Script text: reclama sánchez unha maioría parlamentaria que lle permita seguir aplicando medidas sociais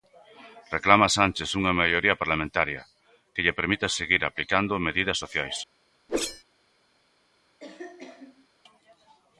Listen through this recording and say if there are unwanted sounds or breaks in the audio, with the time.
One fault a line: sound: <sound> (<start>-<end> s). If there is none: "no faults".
sound: whoosh (6.1-6.4 s)
sound: cough (7.6-8.5 s)